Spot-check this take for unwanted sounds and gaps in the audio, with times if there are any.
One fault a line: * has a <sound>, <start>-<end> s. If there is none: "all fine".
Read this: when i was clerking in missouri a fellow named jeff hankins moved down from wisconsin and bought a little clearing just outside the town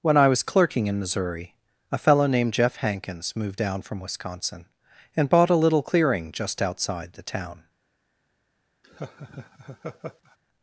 * has a laugh, 8.8-10.4 s